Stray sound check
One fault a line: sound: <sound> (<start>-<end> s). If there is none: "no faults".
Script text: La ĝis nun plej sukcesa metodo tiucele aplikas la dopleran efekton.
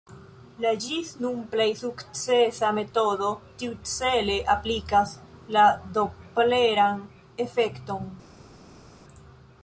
no faults